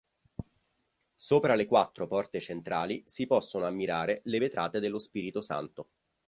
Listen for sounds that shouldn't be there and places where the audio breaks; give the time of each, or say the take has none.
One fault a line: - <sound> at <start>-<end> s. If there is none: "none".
none